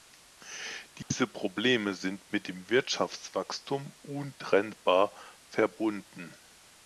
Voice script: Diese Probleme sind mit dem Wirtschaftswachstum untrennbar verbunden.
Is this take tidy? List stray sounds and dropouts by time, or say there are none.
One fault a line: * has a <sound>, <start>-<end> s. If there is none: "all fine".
* has a dropout, 1.0-1.1 s